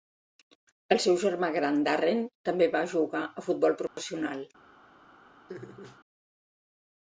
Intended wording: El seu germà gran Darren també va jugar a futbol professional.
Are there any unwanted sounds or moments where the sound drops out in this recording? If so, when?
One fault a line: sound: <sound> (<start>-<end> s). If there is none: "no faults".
sound: dropout (3.9-4.0 s)
sound: laugh (5.5-6.0 s)